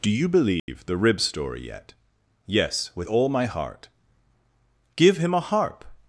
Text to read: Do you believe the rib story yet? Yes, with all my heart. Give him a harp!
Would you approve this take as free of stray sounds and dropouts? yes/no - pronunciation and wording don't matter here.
no